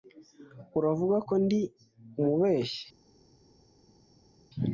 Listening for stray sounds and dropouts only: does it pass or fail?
pass